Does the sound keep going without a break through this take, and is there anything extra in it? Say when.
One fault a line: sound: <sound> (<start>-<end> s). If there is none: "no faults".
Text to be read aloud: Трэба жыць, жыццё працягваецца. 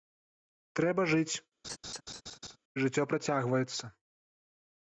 sound: laugh (1.6-2.6 s)